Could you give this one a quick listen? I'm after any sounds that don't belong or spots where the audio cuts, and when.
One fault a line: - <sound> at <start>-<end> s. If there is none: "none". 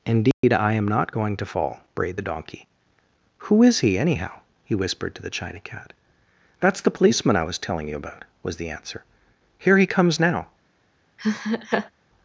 - dropout at 0.3-0.4 s
- laugh at 11.2-11.9 s